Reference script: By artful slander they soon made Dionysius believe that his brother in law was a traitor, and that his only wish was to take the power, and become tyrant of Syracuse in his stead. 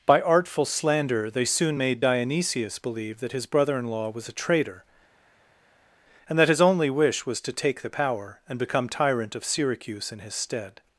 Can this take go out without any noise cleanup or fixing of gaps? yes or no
yes